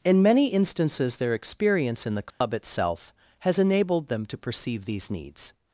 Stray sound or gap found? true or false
true